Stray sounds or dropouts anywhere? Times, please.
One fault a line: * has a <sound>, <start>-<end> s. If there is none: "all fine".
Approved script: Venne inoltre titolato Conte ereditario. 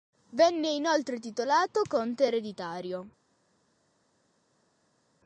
all fine